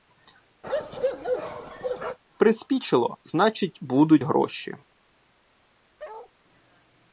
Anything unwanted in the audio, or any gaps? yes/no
yes